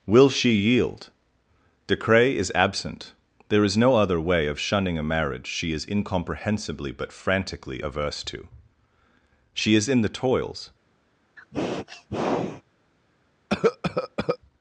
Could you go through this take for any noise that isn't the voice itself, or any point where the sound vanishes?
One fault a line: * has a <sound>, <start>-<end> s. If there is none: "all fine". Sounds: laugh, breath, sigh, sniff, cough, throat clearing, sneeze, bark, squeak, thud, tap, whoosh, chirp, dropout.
* has a sniff, 11.4-12.6 s
* has a cough, 13.5-14.4 s